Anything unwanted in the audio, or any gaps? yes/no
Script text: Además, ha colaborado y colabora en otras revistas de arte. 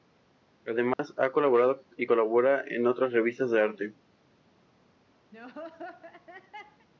yes